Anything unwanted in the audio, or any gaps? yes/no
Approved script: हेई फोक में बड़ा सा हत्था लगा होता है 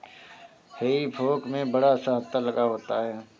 no